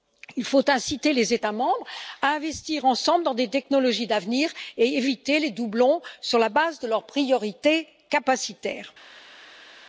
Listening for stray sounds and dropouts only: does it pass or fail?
pass